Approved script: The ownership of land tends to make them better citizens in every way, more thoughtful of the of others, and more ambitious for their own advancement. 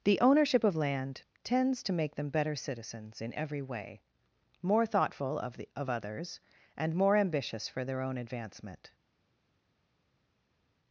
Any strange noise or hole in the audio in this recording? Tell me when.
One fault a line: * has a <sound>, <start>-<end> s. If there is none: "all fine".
all fine